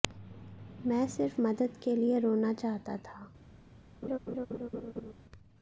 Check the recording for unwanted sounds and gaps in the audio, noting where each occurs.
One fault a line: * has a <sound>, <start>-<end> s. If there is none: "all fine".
* has a laugh, 4.0-5.1 s